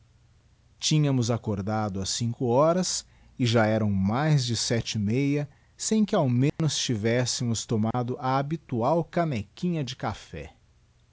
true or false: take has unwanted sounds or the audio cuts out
true